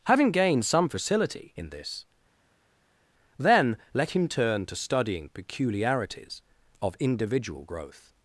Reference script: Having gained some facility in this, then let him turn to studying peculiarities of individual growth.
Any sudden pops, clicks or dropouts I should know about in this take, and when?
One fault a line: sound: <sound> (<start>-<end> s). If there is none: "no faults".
no faults